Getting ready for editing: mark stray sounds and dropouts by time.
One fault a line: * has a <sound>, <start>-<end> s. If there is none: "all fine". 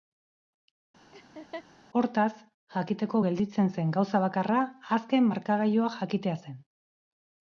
* has a laugh, 1.1-1.7 s